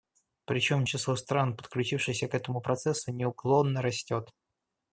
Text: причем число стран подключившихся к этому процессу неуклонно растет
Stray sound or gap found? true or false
false